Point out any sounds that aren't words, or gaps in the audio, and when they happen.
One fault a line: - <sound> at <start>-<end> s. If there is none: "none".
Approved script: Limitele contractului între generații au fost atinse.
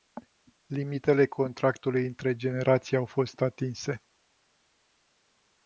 none